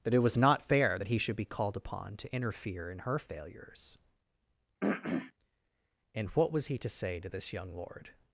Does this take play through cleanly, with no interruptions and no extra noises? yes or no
no